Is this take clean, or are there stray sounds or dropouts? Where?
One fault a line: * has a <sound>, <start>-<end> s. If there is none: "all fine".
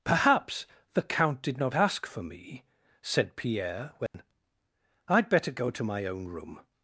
* has a dropout, 4.1-4.1 s